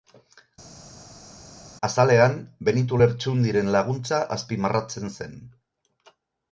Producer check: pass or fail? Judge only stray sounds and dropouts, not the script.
pass